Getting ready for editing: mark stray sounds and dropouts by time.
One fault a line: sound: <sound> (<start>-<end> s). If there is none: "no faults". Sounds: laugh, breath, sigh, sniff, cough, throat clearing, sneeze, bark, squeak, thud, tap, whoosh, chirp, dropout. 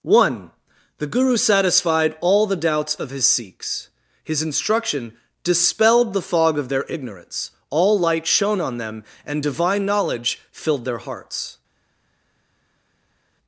no faults